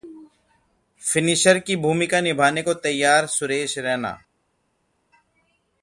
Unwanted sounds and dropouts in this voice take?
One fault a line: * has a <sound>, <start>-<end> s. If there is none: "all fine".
all fine